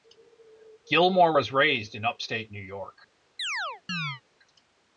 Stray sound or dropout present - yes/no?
yes